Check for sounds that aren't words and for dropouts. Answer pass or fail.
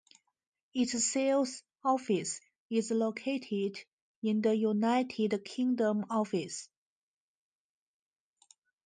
pass